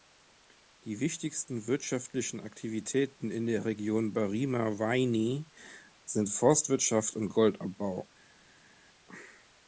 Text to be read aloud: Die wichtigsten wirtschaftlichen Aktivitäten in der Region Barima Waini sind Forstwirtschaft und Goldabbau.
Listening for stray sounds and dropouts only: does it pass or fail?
pass